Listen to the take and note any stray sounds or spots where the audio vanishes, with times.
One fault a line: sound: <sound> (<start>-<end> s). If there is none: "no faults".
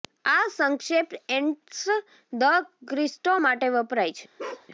sound: bark (4.4-4.7 s)